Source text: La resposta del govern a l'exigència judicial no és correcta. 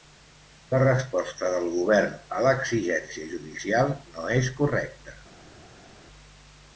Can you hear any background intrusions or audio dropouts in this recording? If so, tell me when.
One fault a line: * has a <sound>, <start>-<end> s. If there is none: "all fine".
all fine